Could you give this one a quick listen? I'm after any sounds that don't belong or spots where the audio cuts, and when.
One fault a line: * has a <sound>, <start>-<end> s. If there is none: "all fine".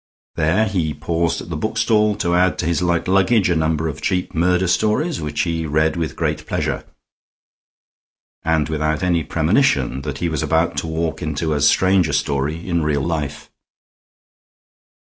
all fine